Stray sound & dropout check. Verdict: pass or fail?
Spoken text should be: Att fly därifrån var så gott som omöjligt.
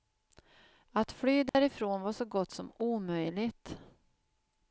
fail